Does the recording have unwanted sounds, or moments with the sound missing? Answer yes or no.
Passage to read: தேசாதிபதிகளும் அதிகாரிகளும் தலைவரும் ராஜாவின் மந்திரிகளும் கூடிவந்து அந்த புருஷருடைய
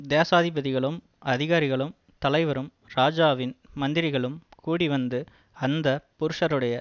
no